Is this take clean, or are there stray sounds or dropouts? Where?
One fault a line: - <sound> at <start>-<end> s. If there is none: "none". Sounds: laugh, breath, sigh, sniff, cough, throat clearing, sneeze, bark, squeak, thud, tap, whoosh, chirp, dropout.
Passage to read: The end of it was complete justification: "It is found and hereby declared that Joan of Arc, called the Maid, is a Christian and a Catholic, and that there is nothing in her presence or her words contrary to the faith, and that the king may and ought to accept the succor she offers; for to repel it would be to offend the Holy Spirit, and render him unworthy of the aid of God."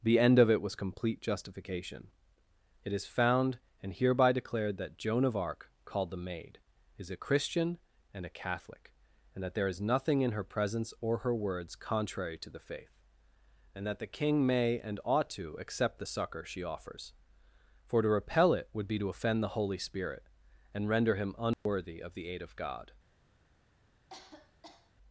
- dropout at 21.5-21.7 s
- cough at 24.1-24.9 s